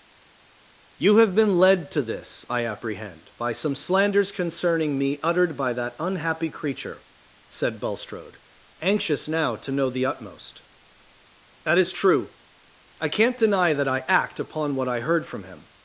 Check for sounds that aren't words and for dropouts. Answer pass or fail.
pass